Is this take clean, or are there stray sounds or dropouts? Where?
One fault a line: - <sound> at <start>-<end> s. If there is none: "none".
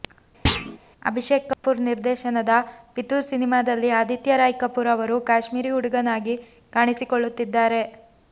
- thud at 0.5-0.8 s
- dropout at 1.5-1.6 s